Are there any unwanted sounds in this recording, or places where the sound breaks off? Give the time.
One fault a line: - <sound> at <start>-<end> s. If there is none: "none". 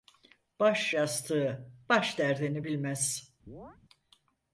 - chirp at 3.5-3.8 s